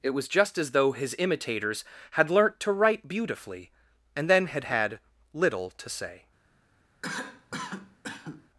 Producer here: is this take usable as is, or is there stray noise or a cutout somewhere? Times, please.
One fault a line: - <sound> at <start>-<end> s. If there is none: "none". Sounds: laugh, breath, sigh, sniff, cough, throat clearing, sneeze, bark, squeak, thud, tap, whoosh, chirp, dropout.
- cough at 7.0-8.5 s